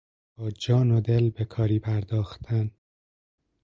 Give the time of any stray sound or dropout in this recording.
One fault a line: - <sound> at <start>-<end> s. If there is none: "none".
none